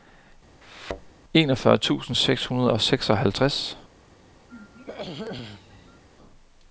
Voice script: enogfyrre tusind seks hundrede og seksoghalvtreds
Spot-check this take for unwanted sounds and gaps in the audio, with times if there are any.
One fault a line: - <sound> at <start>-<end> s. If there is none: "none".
- thud at 0.6-1.1 s
- throat clearing at 4.5-6.0 s